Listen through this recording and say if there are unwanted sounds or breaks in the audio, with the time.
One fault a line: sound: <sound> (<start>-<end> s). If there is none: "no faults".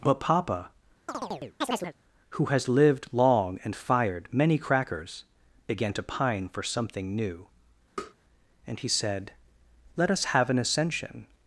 sound: chirp (1.1-1.9 s)
sound: tap (8.0-8.1 s)